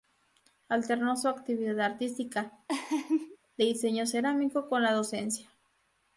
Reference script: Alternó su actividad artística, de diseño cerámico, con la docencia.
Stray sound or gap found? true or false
true